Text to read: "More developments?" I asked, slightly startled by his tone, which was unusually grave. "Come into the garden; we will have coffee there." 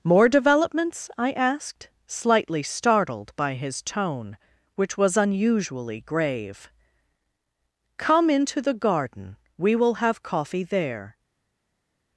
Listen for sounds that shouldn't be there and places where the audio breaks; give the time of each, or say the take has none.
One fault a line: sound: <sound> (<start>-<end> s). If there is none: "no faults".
no faults